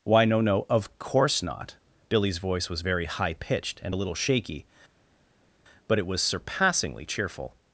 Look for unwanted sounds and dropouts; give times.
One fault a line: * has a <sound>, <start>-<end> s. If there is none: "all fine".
all fine